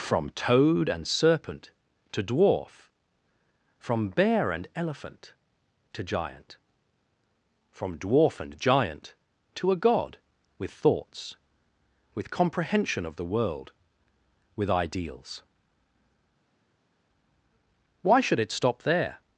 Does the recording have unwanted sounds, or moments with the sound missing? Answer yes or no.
no